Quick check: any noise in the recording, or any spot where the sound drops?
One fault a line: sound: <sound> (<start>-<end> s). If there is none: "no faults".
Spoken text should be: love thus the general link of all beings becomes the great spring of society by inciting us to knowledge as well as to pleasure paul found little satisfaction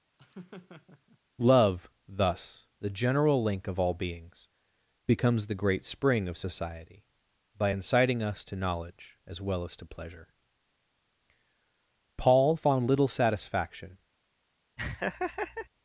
sound: laugh (0.2-1.2 s)
sound: laugh (14.8-15.7 s)